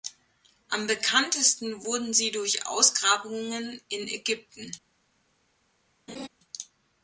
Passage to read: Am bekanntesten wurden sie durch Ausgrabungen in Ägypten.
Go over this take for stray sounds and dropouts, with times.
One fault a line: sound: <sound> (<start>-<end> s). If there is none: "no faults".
sound: laugh (6.1-6.3 s)